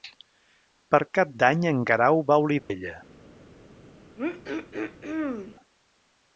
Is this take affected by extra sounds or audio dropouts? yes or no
yes